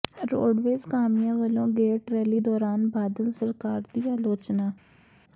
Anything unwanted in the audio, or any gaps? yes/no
no